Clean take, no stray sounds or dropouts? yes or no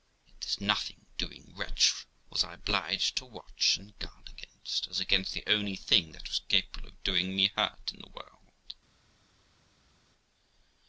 yes